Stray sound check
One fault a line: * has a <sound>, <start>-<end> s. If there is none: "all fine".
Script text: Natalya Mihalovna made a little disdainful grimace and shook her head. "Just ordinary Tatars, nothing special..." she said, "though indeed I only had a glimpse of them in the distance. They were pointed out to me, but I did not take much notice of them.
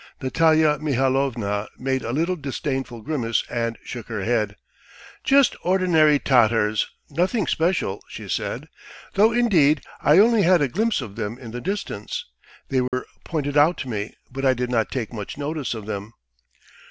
* has a dropout, 12.9-12.9 s